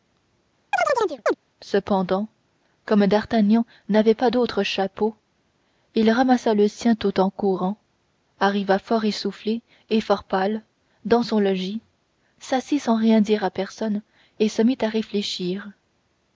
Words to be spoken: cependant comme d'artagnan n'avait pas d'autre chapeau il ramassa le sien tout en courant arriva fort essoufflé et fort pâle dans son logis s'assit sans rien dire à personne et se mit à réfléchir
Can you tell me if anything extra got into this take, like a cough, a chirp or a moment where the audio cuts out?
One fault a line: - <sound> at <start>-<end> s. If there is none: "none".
- chirp at 0.7-1.3 s